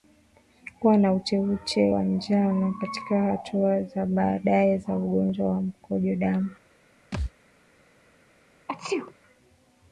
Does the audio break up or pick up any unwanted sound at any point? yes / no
yes